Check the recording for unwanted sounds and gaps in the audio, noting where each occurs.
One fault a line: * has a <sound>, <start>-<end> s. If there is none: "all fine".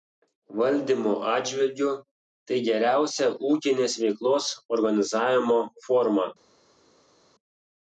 all fine